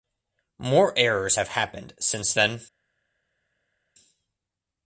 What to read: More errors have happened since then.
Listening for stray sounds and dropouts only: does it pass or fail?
pass